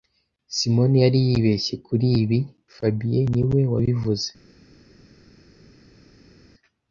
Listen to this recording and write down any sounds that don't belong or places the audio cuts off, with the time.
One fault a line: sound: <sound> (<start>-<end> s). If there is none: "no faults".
no faults